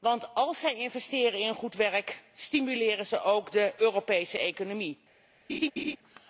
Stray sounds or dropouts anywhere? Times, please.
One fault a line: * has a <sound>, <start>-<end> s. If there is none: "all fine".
* has a laugh, 5.5-6.0 s